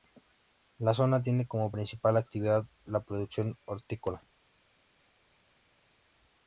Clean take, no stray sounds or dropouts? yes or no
yes